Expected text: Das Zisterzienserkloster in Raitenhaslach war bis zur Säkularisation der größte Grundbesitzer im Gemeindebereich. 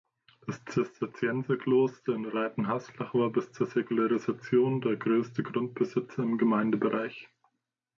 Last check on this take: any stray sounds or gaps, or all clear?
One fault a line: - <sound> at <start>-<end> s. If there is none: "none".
none